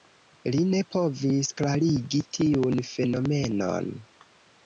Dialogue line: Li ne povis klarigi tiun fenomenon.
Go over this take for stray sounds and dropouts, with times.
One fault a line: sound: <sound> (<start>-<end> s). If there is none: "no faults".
no faults